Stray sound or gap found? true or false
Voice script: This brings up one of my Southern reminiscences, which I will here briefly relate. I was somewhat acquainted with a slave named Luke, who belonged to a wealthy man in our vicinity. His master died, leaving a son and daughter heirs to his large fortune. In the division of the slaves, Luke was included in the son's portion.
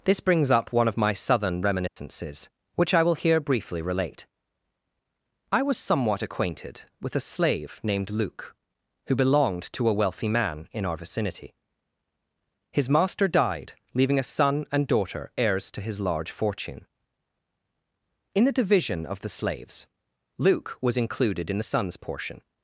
true